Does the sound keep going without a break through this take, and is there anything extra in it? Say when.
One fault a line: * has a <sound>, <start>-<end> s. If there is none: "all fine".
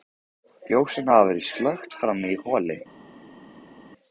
all fine